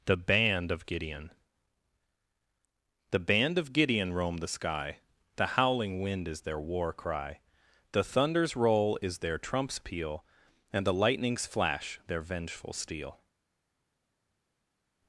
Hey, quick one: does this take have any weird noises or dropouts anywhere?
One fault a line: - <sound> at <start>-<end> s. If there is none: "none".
none